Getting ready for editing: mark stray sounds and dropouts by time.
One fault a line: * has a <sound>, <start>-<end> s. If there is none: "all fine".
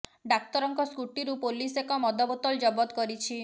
all fine